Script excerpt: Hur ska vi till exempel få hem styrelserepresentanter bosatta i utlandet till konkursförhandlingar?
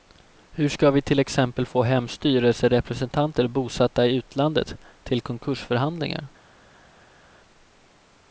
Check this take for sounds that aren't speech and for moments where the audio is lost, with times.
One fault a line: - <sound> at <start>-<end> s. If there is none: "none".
none